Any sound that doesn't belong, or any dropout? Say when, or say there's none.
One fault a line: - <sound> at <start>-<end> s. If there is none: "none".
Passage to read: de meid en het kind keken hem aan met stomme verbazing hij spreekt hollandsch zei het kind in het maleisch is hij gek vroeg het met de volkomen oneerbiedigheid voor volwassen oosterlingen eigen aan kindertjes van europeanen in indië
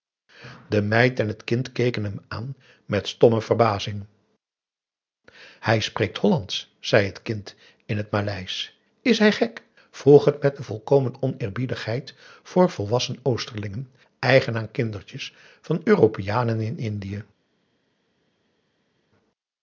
none